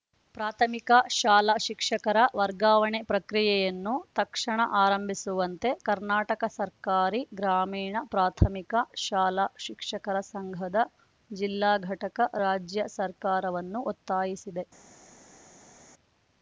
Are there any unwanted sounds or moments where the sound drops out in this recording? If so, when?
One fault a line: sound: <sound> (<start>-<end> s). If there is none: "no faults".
no faults